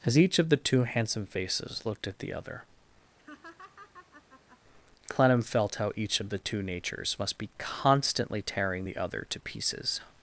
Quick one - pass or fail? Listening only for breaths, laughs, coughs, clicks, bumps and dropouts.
fail